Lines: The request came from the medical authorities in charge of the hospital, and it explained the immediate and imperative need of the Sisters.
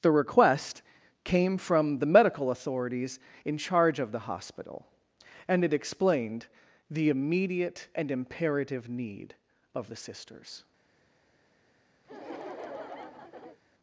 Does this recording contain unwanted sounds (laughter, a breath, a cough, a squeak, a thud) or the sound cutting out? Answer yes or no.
yes